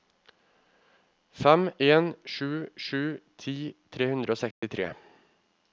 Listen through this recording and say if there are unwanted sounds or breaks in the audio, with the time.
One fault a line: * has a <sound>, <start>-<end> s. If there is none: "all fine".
* has a dropout, 4.5-4.6 s